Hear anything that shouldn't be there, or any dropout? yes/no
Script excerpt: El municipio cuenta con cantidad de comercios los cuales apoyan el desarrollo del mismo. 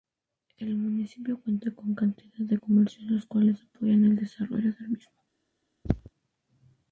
yes